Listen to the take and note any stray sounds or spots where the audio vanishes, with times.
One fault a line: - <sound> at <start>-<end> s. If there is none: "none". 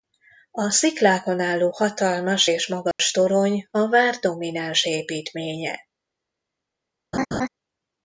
- dropout at 2.9-3.0 s
- laugh at 7.1-7.5 s